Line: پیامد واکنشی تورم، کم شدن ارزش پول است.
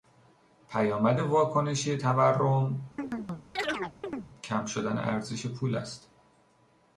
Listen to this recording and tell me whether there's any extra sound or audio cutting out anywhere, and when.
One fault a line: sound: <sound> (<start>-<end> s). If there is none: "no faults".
sound: chirp (3.0-4.3 s)